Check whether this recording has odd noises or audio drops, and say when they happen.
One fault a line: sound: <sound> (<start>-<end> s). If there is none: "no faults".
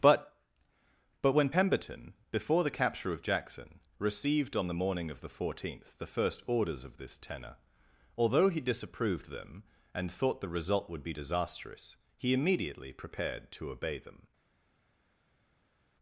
no faults